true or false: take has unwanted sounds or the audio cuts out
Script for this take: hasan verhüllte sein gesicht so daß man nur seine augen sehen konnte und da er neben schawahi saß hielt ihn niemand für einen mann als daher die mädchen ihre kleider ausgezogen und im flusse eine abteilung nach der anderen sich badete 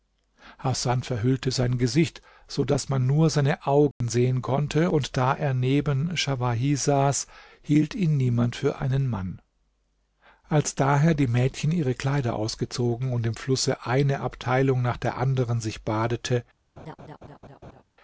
true